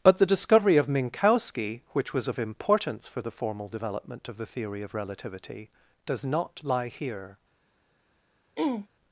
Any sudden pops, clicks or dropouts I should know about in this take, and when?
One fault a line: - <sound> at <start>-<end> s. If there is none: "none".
- throat clearing at 8.6-8.9 s